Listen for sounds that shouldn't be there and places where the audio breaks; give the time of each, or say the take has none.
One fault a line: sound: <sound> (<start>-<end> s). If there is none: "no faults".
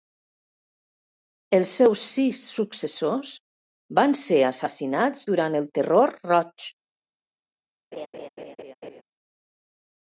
sound: laugh (7.9-9.0 s)